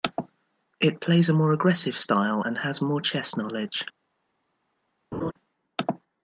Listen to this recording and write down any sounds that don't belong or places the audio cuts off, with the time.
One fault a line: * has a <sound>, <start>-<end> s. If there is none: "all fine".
* has a laugh, 5.1-5.3 s